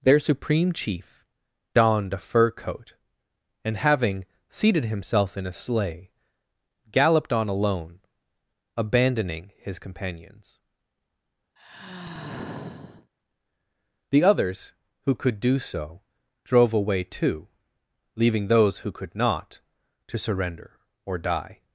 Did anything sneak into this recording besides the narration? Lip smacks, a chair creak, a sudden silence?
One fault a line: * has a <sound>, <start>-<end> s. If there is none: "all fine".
* has a sigh, 11.6-13.1 s